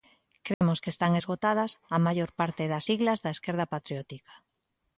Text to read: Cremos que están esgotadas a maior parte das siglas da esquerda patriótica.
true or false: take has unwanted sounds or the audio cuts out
true